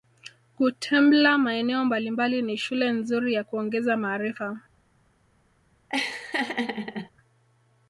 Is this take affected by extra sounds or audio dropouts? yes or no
yes